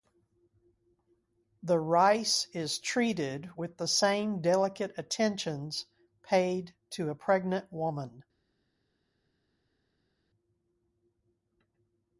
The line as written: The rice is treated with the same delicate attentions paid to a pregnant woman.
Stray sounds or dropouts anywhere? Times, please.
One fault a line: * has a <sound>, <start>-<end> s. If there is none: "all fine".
all fine